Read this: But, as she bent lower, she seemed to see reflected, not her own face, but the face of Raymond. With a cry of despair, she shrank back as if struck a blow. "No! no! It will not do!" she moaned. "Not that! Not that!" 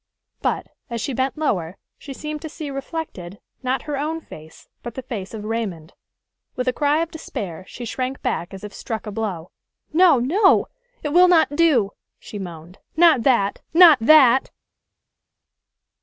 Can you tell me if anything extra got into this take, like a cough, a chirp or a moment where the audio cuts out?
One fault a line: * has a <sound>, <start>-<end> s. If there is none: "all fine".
all fine